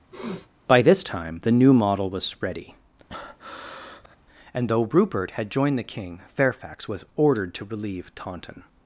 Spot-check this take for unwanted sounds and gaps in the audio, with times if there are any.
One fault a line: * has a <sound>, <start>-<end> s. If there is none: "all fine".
* has a sniff, 0.1-0.5 s
* has a breath, 3.1-4.2 s